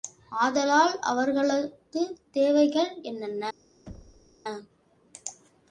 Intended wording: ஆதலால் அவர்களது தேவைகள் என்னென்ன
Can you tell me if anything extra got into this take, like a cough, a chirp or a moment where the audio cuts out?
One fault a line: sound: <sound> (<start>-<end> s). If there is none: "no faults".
sound: thud (3.9-4.4 s)